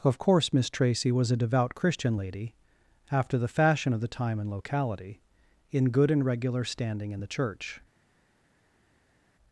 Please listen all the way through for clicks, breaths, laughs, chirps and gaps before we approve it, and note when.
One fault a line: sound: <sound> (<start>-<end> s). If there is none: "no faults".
no faults